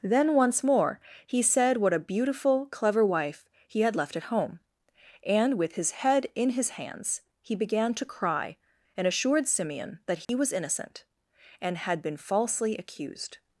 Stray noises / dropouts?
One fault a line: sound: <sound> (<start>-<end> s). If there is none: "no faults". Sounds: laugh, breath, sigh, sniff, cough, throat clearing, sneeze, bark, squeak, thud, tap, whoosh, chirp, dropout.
sound: dropout (10.2-10.3 s)